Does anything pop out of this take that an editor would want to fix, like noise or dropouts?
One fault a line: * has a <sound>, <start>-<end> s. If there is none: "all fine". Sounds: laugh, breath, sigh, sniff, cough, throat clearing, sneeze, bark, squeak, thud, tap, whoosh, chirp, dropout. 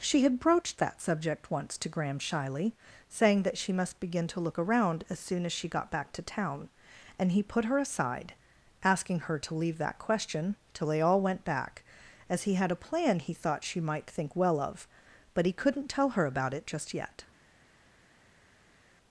all fine